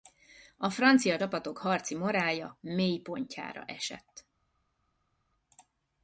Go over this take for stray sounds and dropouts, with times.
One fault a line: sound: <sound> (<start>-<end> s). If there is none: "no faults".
no faults